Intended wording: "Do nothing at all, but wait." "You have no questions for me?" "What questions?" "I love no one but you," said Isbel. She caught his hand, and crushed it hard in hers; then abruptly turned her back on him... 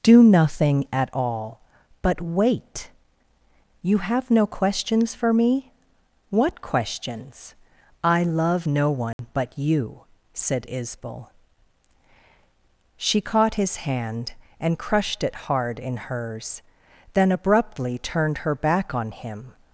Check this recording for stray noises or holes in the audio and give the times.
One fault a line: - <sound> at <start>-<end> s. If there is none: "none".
- dropout at 9.1-9.2 s